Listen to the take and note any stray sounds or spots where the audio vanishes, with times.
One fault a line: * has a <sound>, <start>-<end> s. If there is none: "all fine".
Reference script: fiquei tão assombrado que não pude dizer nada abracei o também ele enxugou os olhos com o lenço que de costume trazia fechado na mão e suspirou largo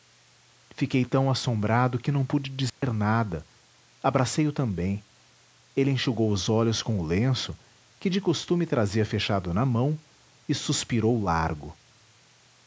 * has a dropout, 2.7-2.8 s